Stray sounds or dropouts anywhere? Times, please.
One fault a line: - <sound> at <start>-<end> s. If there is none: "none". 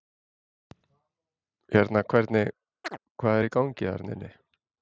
- chirp at 2.8-3.0 s